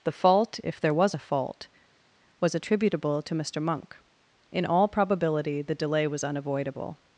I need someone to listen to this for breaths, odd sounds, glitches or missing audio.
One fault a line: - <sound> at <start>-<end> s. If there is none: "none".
none